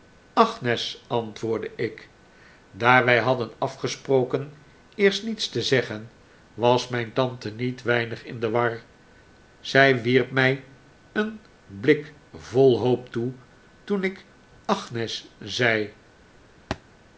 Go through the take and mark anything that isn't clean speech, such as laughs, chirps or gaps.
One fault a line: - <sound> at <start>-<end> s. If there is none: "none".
- thud at 16.7-16.8 s